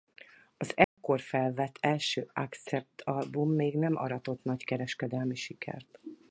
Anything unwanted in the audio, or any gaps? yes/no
yes